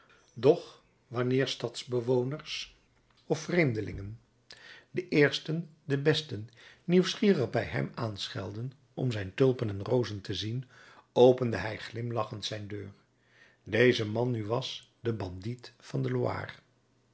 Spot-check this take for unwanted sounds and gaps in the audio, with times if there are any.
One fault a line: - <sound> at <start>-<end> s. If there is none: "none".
none